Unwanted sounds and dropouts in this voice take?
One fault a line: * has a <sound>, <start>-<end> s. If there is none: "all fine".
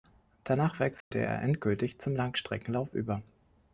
* has a dropout, 1.0-1.1 s